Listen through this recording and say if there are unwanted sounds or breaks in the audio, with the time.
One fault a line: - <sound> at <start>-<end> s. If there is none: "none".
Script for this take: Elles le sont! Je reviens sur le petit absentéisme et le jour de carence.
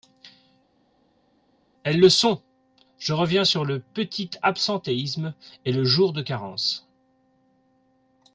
none